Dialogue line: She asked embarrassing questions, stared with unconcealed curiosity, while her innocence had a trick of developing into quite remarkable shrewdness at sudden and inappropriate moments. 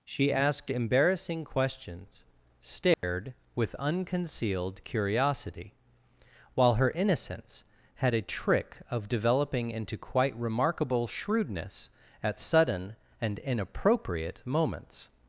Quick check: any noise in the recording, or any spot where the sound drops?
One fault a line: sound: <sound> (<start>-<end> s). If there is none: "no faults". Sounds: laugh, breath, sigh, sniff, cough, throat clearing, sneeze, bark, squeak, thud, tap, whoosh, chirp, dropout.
sound: dropout (2.9-3.0 s)